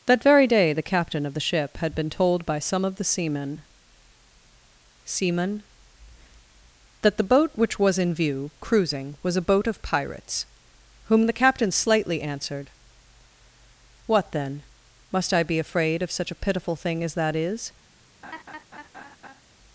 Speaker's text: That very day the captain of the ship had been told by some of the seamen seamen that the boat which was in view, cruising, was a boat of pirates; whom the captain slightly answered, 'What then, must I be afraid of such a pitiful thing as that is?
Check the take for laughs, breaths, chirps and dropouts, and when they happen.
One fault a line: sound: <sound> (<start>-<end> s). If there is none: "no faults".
sound: laugh (18.2-19.4 s)